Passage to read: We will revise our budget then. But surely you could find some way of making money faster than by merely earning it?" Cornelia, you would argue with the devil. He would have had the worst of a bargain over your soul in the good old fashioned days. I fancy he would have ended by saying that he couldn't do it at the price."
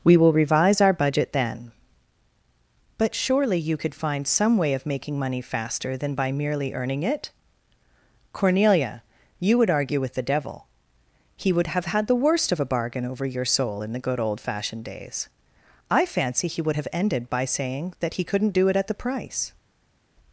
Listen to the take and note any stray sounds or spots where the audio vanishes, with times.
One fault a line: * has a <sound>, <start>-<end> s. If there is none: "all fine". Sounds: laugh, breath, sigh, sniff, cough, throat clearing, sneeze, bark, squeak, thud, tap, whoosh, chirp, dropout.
all fine